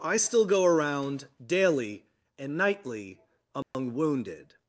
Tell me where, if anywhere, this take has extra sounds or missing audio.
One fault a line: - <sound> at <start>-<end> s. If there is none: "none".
- dropout at 3.6-3.7 s